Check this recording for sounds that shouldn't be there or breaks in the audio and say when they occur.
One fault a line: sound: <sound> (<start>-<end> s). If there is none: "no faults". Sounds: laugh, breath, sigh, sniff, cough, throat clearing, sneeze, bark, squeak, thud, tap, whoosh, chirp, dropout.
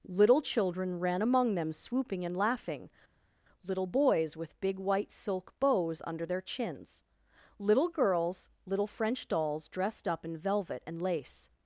no faults